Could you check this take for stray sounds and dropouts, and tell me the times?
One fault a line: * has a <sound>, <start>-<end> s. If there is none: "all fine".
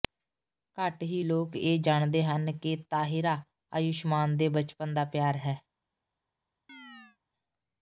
* has a chirp, 6.7-7.2 s